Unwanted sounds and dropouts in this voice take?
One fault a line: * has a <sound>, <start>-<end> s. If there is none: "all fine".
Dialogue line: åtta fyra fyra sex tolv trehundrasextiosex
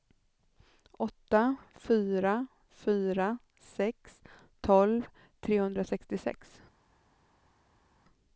all fine